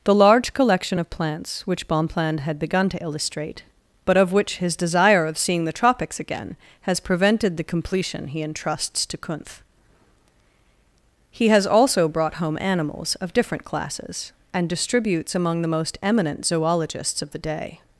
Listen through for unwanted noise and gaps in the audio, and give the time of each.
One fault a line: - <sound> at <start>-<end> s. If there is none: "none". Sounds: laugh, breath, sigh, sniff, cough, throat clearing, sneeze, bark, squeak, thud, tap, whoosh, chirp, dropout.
none